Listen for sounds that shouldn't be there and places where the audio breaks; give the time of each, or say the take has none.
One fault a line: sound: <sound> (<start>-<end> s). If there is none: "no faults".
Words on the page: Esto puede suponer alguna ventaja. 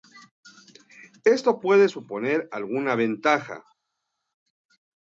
no faults